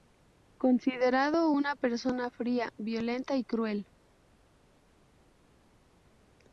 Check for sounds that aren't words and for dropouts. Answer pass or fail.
pass